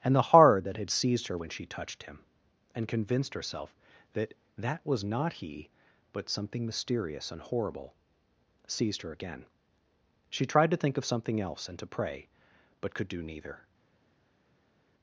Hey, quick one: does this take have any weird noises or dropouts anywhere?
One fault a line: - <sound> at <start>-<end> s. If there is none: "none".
none